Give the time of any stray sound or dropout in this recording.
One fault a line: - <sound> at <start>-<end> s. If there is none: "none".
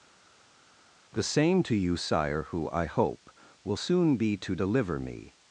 none